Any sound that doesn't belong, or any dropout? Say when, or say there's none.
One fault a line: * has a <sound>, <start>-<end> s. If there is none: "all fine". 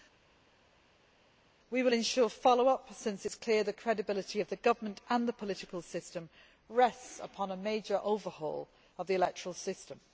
all fine